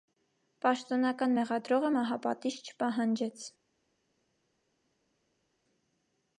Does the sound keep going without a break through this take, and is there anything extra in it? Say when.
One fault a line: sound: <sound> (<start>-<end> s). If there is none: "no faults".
no faults